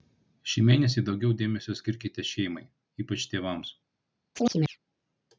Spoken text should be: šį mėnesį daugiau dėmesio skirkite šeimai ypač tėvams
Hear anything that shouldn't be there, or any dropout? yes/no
yes